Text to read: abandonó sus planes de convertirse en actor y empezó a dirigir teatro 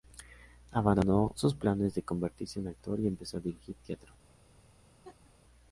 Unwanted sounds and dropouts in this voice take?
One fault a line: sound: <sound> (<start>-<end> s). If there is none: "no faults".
sound: laugh (5.0-5.3 s)